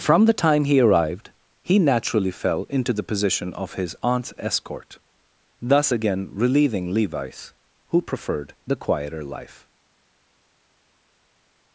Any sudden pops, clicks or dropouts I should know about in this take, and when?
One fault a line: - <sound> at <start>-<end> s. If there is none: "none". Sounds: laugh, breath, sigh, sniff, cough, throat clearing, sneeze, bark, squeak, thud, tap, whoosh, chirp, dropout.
none